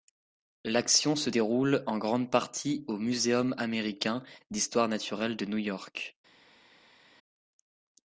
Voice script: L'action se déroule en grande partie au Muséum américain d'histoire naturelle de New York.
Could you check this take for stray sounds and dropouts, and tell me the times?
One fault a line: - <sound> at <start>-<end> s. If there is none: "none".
none